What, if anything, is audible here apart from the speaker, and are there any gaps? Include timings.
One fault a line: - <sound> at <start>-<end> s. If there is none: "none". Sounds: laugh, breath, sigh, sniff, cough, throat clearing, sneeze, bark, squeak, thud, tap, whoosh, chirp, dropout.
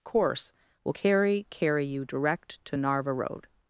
none